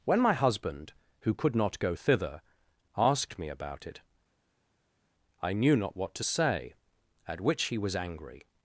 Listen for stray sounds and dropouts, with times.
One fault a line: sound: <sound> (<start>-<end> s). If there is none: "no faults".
no faults